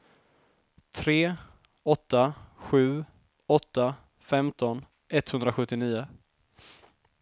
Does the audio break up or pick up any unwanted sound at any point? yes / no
no